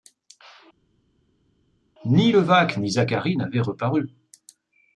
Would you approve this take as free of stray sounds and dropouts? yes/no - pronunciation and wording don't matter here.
yes